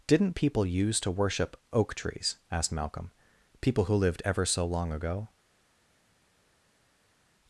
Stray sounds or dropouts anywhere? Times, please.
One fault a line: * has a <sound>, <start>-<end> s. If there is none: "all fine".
all fine